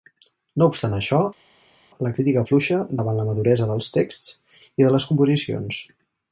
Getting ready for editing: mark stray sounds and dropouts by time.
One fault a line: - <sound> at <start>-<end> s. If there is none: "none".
none